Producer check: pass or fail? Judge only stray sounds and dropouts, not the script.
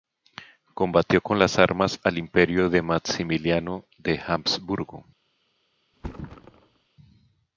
fail